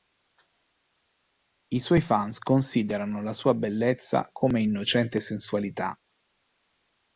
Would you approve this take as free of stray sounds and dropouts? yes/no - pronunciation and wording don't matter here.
yes